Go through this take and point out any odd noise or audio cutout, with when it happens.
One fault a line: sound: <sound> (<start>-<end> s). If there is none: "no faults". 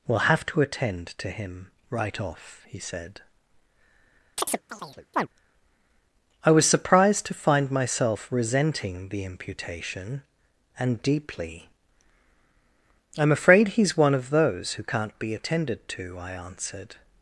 sound: chirp (4.4-5.3 s)